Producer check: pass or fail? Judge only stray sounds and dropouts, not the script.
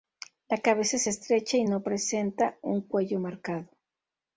pass